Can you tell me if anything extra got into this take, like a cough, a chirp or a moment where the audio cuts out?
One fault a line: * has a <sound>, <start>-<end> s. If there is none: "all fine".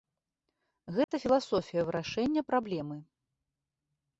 * has a dropout, 1.0-1.1 s